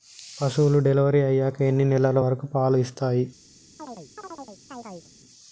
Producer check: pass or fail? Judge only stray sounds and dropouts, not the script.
fail